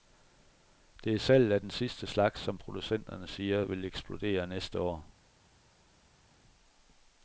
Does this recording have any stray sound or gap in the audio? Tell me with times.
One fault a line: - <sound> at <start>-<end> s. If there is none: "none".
none